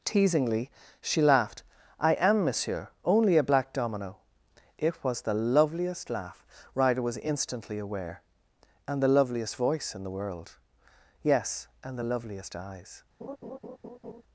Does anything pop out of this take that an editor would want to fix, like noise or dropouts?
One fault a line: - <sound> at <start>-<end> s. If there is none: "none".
- laugh at 13.2-14.2 s